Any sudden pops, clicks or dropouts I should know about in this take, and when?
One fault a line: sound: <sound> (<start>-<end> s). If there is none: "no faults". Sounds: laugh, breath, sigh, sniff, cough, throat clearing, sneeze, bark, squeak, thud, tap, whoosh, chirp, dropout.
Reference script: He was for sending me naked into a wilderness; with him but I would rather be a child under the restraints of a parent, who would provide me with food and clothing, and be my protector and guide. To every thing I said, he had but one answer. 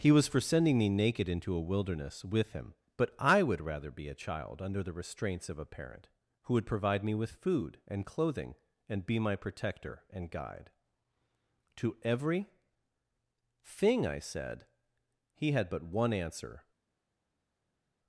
no faults